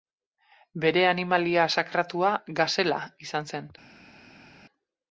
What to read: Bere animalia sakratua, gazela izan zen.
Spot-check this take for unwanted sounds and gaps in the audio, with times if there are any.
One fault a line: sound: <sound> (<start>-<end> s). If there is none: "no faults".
no faults